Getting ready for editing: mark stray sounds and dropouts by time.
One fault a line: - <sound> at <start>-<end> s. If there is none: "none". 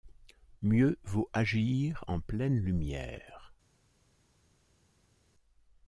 none